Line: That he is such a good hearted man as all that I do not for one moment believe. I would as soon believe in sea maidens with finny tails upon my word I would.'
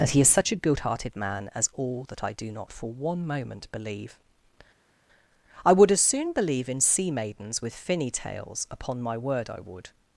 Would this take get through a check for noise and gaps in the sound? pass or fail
pass